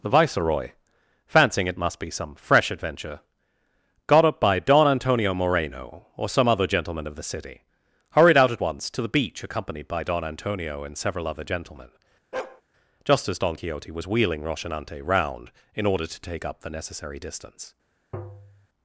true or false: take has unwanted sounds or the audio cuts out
true